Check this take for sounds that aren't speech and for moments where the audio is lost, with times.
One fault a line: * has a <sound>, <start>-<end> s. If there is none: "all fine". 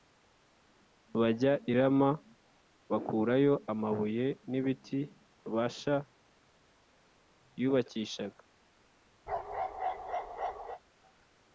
* has a bark, 9.3-10.8 s